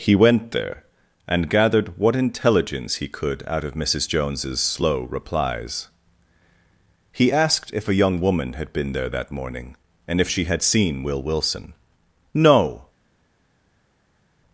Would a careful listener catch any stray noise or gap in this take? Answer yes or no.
no